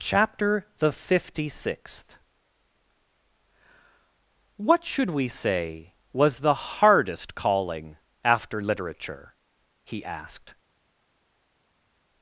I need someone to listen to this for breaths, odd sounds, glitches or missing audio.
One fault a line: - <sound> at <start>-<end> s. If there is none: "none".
none